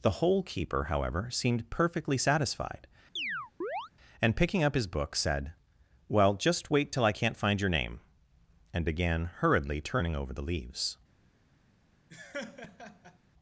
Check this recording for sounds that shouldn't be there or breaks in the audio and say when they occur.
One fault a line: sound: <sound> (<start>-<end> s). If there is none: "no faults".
sound: chirp (3.2-3.9 s)
sound: laugh (12.1-13.2 s)